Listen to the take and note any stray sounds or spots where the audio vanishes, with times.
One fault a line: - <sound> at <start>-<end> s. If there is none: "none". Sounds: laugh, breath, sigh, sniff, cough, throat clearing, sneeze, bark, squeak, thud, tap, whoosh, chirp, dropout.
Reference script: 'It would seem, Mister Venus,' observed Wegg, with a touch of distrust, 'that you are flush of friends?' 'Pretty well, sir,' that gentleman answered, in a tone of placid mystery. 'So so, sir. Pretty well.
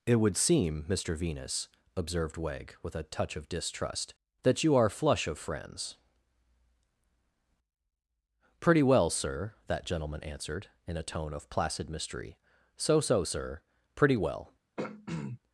- throat clearing at 14.8-15.4 s